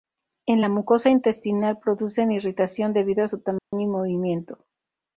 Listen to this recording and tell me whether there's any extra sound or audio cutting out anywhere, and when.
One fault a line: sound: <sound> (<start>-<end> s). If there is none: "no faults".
sound: dropout (3.6-3.7 s)